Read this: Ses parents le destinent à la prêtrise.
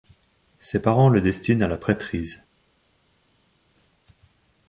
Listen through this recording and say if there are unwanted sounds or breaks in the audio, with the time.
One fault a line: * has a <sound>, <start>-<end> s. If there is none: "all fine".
all fine